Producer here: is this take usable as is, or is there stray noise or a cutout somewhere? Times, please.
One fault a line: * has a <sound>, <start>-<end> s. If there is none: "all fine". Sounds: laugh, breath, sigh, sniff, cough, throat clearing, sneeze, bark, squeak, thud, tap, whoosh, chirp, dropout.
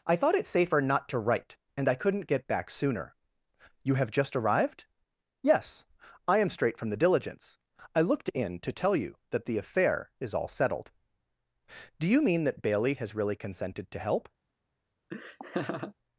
* has a laugh, 15.1-15.9 s